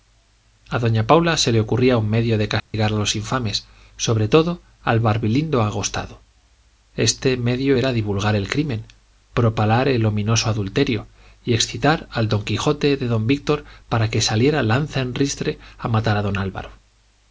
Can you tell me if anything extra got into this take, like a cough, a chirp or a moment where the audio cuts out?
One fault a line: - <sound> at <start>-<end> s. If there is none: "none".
- dropout at 2.6-2.7 s